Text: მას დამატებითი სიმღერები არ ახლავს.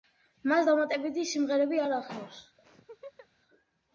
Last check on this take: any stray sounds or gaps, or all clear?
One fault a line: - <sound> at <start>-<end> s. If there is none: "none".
- laugh at 2.6-3.3 s